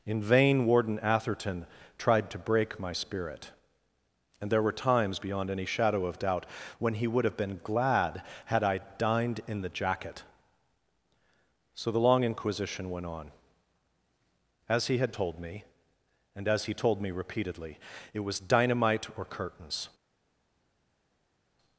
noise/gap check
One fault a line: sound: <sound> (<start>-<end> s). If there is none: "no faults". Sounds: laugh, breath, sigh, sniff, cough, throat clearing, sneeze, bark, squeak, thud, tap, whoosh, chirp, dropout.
no faults